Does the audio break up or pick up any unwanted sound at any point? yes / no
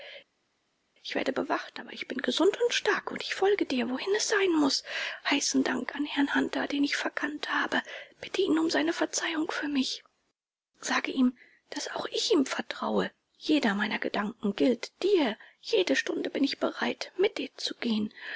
no